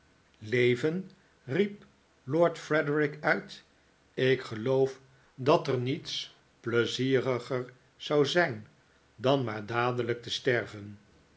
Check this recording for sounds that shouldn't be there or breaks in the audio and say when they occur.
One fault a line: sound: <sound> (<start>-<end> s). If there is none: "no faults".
no faults